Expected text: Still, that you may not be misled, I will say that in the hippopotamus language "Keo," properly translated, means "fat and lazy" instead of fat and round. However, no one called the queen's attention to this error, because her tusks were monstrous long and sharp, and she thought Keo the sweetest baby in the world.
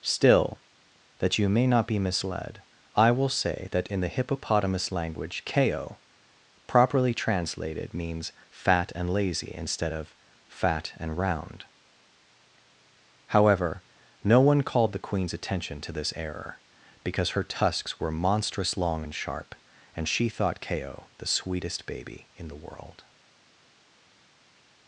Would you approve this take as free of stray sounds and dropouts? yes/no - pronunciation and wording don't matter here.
yes